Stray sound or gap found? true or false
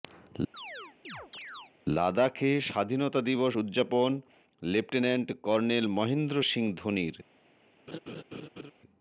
true